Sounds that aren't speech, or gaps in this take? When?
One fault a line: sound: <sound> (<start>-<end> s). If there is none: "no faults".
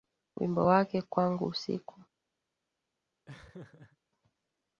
sound: laugh (3.3-4.0 s)